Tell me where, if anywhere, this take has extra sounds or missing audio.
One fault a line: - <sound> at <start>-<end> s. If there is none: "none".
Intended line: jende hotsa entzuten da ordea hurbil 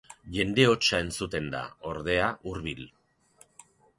none